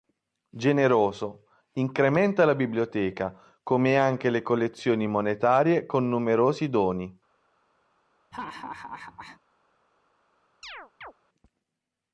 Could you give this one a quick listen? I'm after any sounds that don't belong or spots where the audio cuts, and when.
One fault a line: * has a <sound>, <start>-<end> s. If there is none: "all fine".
* has a laugh, 8.3-9.4 s
* has a chirp, 10.6-11.1 s